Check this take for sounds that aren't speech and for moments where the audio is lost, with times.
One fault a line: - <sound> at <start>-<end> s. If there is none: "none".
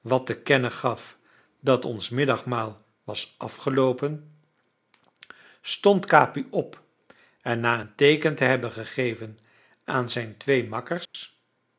- dropout at 11.0-11.1 s